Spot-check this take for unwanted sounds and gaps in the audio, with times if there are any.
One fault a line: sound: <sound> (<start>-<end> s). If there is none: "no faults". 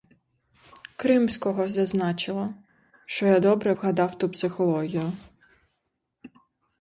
no faults